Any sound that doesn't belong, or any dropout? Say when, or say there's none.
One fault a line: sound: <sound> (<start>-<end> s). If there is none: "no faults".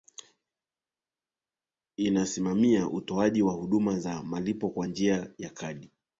no faults